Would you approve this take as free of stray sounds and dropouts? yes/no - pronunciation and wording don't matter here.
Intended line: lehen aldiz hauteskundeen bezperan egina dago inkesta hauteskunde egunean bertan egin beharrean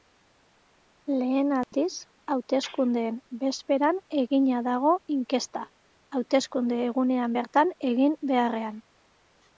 no